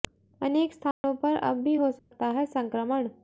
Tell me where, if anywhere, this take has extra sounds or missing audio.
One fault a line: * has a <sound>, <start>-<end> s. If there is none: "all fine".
* has a dropout, 0.9-1.0 s
* has a dropout, 2.0-2.1 s